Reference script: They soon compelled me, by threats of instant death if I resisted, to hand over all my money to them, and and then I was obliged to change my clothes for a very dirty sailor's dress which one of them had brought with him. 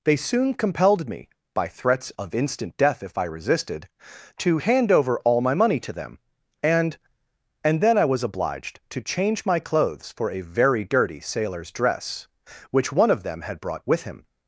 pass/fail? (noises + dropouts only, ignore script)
pass